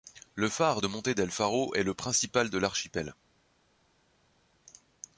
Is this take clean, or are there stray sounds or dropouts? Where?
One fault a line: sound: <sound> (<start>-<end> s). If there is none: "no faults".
no faults